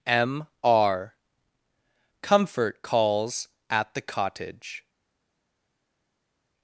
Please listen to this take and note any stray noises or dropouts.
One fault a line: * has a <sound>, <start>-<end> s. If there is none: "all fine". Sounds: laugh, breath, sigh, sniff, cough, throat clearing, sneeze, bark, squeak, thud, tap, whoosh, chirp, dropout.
all fine